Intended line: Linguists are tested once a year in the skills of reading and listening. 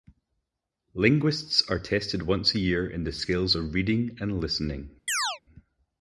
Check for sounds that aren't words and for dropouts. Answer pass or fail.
fail